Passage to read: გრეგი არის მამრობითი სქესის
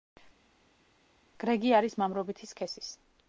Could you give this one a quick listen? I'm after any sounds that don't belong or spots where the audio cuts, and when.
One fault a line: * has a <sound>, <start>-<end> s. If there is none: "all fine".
all fine